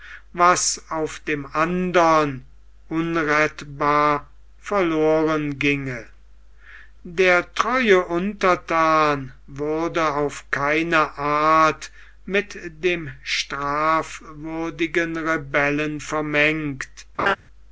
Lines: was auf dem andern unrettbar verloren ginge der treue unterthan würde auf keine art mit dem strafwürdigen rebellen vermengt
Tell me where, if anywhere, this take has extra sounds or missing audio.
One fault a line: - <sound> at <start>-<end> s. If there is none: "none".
- laugh at 17.2-17.4 s